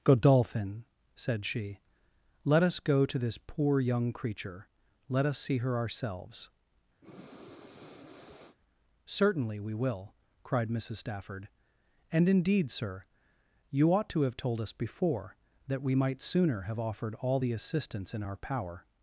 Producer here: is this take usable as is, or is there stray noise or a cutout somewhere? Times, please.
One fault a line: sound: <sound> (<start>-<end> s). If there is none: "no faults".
sound: breath (7.0-8.6 s)